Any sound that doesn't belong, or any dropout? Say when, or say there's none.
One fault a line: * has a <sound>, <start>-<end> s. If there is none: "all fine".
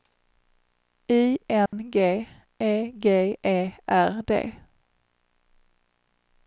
* has a dropout, 1.7-1.7 s